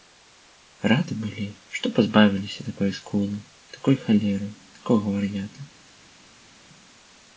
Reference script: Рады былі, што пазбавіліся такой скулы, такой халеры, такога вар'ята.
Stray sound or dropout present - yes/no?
no